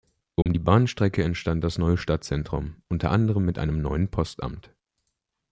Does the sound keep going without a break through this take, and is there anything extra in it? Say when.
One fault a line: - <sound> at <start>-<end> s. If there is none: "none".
- dropout at 0.4-0.5 s